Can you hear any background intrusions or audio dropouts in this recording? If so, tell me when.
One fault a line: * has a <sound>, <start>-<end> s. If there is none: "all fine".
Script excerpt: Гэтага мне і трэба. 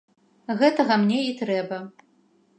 all fine